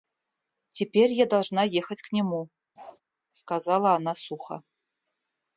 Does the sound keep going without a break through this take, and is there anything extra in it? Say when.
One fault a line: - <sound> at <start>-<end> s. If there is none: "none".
- bark at 2.8-3.0 s